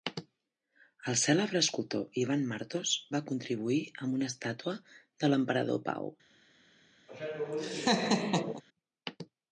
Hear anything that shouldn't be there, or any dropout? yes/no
yes